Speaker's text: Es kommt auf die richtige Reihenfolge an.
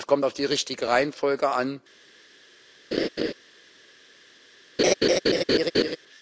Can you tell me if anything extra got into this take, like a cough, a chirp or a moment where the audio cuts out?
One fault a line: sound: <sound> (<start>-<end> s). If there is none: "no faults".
sound: laugh (2.9-3.3 s)
sound: laugh (4.8-6.0 s)